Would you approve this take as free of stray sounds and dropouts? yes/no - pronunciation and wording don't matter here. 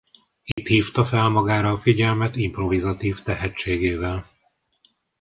no